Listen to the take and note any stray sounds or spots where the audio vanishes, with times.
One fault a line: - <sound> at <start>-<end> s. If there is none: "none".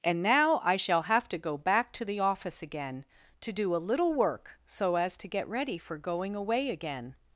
none